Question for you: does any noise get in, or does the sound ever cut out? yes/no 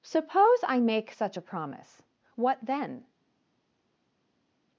no